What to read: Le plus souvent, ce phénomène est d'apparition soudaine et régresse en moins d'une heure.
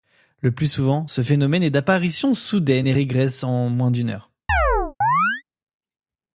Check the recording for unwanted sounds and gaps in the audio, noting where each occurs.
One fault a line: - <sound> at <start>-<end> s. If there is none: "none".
- chirp at 4.5-5.4 s